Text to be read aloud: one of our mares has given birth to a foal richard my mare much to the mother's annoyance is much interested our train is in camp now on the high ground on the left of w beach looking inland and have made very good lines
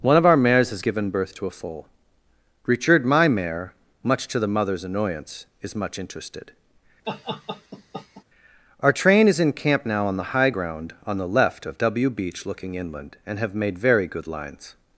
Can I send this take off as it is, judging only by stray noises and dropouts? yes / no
no